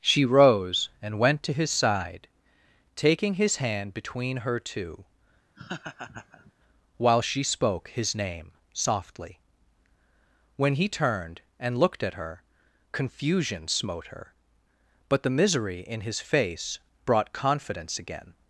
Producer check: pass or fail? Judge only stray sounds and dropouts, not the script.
fail